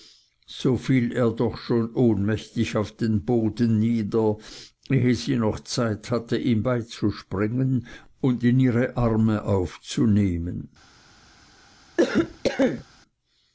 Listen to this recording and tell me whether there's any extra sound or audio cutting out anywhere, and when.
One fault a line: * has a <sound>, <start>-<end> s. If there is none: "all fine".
* has a cough, 12.0-12.8 s